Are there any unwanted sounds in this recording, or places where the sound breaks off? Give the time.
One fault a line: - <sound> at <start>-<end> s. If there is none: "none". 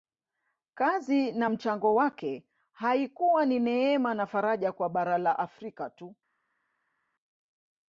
none